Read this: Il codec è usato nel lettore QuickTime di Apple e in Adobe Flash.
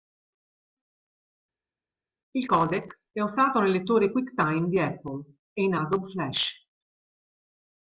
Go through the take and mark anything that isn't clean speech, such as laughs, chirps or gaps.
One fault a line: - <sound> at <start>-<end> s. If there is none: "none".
none